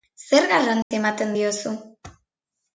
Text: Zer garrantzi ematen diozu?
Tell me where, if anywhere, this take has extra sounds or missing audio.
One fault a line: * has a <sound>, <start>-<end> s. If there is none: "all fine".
* has a dropout, 0.8-0.9 s